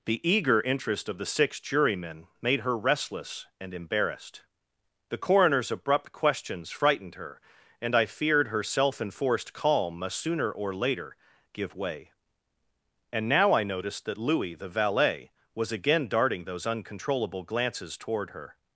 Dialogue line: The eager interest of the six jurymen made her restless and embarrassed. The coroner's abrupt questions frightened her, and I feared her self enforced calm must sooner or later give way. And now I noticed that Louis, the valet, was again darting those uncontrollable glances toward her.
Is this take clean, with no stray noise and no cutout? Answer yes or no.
yes